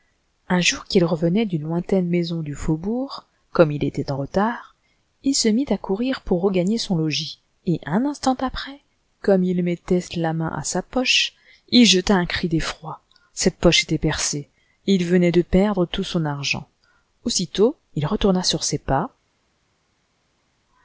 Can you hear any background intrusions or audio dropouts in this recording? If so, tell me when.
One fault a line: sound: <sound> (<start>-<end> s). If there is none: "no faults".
no faults